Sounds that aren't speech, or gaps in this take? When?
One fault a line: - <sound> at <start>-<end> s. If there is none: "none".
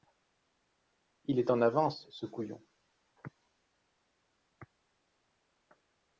none